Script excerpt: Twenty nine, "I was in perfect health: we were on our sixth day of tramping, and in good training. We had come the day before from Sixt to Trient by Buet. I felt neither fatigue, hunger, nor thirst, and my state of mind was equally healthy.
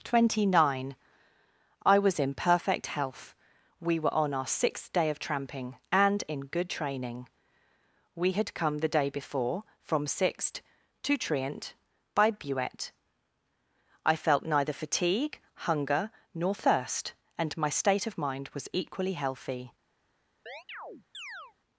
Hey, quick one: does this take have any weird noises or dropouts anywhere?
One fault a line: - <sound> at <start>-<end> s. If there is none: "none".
- chirp at 20.5-21.5 s